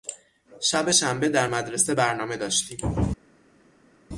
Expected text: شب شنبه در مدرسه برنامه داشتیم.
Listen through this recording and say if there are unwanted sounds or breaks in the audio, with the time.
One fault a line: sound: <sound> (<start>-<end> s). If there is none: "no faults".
no faults